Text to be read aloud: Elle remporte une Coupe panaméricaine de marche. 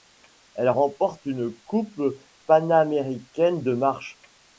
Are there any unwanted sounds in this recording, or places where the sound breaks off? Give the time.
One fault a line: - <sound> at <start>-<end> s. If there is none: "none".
none